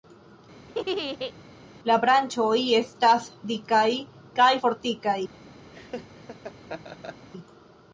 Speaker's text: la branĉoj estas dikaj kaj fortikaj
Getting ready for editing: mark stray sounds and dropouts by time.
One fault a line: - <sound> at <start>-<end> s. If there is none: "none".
- laugh at 0.7-1.3 s
- laugh at 5.7-7.3 s